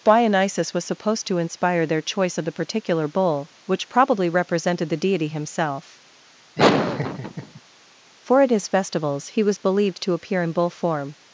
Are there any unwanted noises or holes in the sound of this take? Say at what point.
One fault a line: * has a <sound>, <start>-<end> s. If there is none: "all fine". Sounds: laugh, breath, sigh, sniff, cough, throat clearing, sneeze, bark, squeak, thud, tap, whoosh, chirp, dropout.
* has a laugh, 6.6-7.6 s